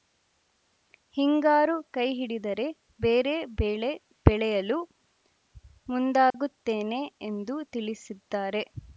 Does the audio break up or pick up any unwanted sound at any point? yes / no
yes